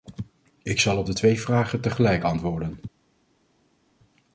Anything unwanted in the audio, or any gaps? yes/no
no